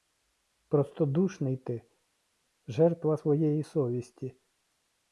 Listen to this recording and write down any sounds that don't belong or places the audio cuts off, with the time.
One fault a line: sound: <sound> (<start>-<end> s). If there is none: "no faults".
no faults